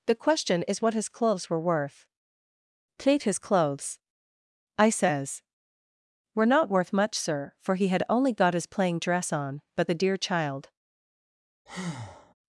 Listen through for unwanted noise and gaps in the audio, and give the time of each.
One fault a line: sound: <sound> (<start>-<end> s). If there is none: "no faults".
sound: breath (11.7-12.3 s)